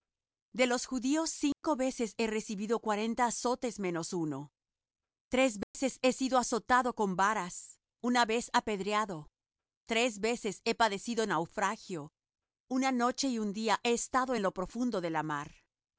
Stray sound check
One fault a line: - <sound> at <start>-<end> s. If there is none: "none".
- dropout at 1.5-1.6 s
- dropout at 5.6-5.7 s